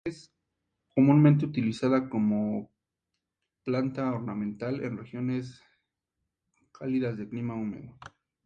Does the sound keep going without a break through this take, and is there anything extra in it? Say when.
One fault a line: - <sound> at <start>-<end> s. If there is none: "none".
none